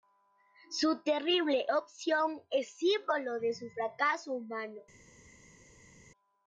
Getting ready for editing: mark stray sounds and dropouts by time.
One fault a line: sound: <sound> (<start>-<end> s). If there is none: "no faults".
no faults